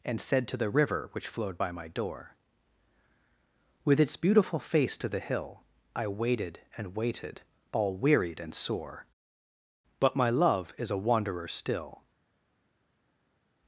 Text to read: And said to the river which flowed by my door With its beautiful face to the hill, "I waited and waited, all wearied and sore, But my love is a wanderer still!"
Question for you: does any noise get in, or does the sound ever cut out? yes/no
no